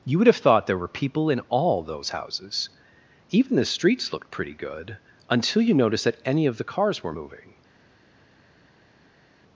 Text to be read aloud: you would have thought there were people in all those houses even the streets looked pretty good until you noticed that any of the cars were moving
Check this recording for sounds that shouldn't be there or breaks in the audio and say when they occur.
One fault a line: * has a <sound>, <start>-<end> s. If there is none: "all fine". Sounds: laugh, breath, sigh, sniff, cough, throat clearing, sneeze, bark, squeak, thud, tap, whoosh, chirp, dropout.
all fine